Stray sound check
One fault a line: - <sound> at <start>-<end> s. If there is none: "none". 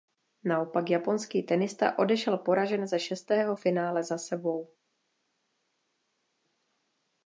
none